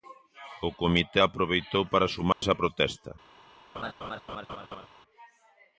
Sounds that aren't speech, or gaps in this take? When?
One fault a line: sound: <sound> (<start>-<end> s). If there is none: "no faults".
sound: dropout (2.3-2.4 s)
sound: laugh (3.7-4.9 s)